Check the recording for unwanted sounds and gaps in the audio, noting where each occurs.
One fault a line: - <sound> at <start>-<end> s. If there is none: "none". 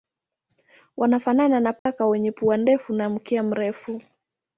- dropout at 1.8-1.9 s